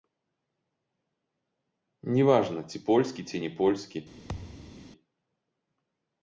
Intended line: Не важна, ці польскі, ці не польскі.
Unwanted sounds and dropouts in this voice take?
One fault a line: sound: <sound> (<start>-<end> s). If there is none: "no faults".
sound: thud (4.3-4.9 s)